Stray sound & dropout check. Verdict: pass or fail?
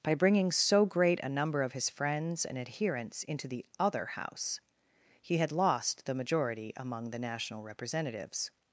pass